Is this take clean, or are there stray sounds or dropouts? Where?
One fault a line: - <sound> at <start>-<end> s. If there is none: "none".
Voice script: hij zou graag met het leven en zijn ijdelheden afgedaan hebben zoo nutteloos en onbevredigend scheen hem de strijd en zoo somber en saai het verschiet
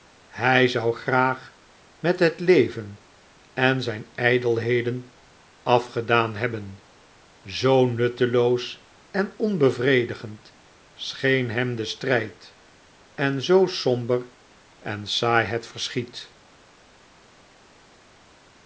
none